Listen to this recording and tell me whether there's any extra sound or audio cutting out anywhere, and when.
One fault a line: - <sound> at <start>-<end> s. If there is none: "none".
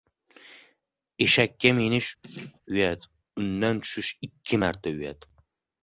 - laugh at 2.2-2.6 s